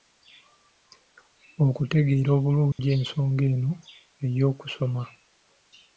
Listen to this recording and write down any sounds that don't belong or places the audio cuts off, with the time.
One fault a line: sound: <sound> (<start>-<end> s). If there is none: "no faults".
sound: dropout (2.7-2.8 s)